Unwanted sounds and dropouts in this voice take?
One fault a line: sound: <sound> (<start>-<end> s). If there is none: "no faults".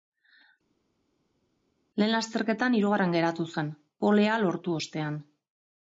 no faults